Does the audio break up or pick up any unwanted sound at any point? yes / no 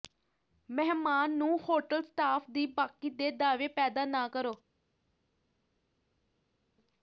no